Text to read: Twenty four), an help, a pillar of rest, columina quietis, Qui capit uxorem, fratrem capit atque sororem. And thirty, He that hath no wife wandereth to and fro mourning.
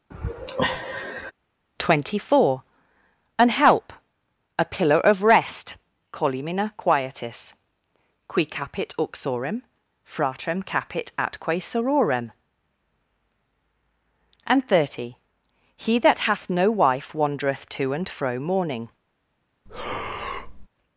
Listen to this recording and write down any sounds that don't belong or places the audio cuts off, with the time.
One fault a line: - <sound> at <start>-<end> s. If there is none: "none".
- sigh at 0.1-1.3 s
- breath at 19.7-20.7 s